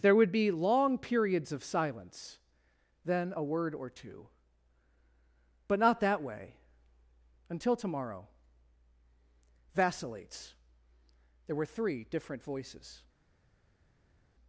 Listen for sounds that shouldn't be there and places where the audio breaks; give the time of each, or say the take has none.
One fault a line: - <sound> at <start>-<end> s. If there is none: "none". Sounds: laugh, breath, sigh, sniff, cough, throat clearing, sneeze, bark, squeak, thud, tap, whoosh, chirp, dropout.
none